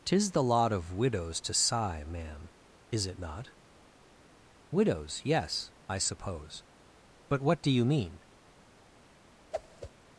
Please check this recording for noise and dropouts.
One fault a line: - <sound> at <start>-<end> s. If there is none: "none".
- whoosh at 9.5-9.9 s